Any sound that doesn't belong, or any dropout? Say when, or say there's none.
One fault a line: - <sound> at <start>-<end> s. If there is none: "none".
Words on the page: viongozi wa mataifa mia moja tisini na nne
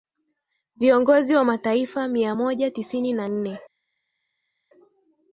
none